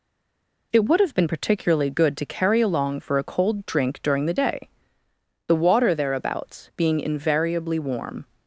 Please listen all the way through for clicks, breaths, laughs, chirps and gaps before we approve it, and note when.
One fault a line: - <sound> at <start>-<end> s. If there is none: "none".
none